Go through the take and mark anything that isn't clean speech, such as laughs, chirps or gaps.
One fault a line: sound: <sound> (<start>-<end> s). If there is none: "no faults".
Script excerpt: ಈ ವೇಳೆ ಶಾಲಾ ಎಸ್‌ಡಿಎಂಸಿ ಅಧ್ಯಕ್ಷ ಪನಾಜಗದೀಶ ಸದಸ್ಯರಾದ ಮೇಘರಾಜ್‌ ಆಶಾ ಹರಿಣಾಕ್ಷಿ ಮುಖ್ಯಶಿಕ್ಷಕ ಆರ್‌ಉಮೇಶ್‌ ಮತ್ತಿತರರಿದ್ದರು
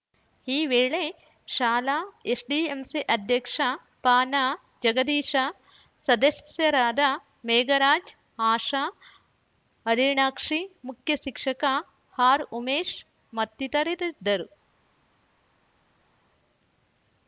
no faults